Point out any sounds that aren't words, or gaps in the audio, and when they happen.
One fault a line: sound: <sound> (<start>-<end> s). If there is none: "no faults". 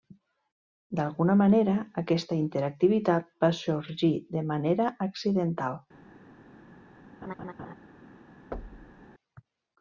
sound: laugh (7.2-7.7 s)
sound: thud (8.5-9.1 s)